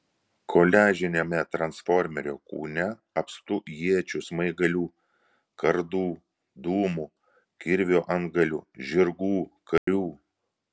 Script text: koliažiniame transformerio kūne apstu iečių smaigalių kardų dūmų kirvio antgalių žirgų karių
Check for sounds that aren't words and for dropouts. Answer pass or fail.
fail